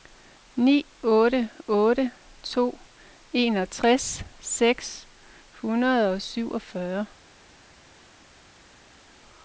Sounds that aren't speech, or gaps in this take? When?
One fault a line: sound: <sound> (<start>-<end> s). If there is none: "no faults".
no faults